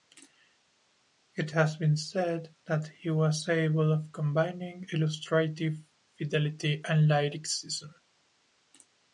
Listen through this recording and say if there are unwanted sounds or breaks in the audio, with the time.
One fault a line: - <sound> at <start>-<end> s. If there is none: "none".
none